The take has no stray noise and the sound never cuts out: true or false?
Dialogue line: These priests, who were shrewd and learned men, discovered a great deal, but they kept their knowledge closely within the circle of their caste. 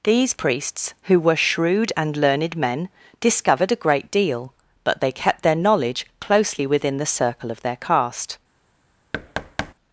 false